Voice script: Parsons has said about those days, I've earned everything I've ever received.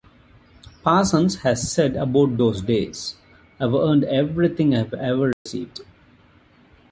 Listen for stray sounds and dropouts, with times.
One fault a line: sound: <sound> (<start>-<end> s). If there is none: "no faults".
sound: dropout (5.3-5.5 s)